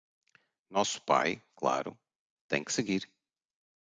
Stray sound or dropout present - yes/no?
no